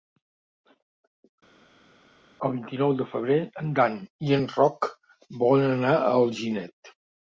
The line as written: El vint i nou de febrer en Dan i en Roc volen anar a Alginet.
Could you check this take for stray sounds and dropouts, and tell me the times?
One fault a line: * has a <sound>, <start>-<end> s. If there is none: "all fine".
all fine